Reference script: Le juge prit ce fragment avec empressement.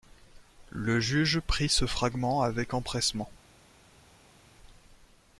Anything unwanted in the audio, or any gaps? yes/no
no